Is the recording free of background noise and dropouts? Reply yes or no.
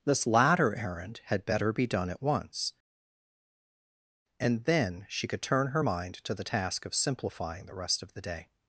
yes